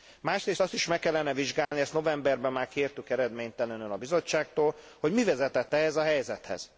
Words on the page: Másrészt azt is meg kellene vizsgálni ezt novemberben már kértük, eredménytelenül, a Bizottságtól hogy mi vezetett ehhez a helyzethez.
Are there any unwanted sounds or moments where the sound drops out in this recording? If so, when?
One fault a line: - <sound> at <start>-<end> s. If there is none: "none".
- dropout at 1.6-1.7 s